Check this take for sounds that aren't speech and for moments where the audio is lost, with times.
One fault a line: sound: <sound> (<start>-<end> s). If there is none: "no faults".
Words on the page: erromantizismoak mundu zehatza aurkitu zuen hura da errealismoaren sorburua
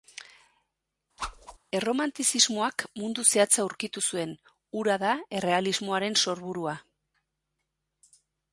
sound: whoosh (1.2-1.6 s)